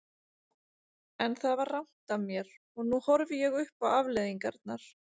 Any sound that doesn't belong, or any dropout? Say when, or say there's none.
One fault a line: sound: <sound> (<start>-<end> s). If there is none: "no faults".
no faults